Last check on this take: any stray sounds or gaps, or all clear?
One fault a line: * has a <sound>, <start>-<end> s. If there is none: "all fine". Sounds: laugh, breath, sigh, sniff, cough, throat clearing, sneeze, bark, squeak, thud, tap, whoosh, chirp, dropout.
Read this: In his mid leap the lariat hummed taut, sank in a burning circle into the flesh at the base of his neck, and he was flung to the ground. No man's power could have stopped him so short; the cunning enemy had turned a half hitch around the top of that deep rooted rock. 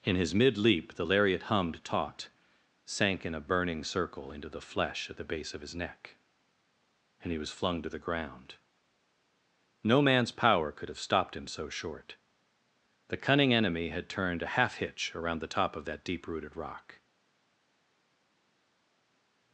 all fine